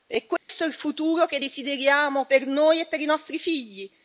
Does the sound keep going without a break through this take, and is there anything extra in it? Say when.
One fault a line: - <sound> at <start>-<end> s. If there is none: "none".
- dropout at 0.4-0.5 s